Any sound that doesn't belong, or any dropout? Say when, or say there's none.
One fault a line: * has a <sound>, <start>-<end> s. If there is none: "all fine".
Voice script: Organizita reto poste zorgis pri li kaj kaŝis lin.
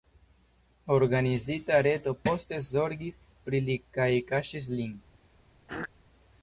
* has a throat clearing, 5.7-5.9 s